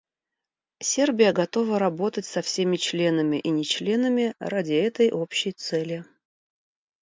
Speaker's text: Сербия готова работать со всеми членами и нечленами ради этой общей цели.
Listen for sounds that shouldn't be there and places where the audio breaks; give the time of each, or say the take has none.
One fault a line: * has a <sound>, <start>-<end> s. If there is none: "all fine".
all fine